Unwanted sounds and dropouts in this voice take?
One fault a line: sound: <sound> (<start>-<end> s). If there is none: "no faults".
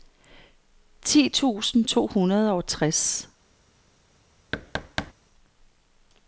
sound: thud (4.5-5.1 s)